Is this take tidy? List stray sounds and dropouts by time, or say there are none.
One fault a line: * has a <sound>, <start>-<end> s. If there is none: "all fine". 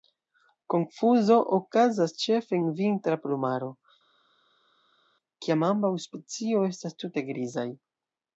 all fine